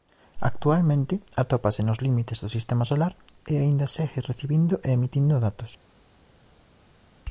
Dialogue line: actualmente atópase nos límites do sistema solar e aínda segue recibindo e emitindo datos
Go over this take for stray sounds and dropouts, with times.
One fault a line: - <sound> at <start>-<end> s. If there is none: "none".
none